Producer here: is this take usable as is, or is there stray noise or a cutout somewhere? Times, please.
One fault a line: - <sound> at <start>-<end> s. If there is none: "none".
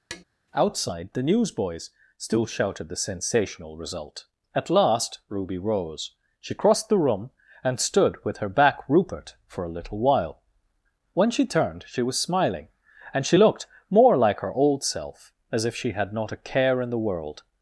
- tap at 0.1-0.2 s